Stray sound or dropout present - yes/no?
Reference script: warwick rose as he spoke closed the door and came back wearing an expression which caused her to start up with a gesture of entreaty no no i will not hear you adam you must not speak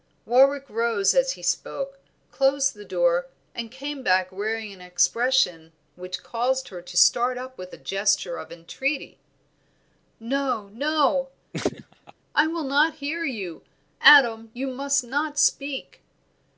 yes